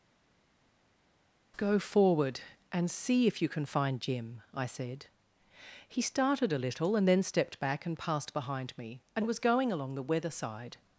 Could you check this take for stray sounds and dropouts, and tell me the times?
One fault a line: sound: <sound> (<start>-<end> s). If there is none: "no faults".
no faults